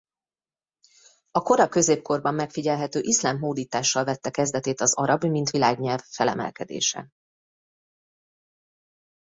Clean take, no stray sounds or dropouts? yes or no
yes